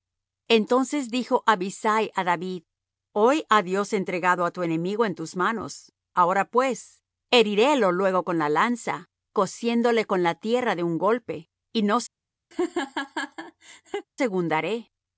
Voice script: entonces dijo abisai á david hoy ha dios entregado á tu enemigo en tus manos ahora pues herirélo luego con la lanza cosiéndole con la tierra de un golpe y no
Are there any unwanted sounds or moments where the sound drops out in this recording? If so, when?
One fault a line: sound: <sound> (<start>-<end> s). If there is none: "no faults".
sound: laugh (12.5-14.1 s)